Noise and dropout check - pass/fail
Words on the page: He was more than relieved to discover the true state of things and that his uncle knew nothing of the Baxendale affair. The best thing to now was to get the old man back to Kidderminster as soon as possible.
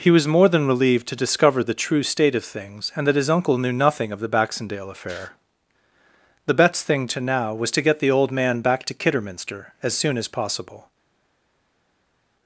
pass